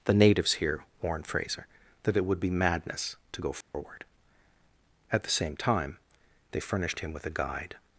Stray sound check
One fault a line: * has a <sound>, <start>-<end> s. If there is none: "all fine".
* has a dropout, 3.6-3.7 s